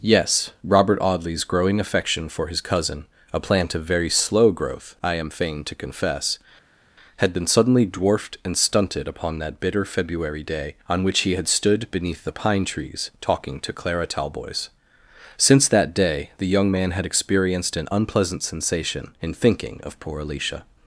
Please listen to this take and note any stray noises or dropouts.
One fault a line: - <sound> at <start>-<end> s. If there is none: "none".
none